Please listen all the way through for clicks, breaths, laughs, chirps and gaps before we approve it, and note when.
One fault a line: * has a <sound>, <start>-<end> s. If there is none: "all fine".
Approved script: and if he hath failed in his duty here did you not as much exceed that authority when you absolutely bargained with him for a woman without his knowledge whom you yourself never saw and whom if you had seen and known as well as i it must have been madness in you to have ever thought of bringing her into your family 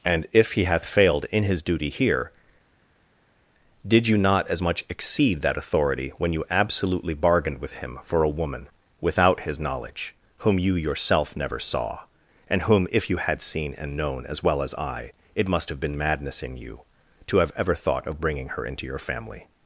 all fine